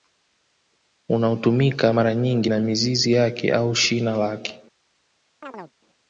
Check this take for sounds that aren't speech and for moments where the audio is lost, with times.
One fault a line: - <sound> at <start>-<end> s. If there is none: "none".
- chirp at 5.4-5.7 s